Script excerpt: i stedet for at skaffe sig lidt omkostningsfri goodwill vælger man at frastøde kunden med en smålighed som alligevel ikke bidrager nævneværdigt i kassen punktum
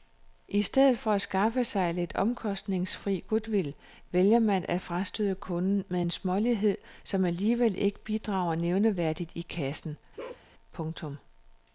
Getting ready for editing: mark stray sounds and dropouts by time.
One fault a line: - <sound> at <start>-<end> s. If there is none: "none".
- bark at 10.2-10.5 s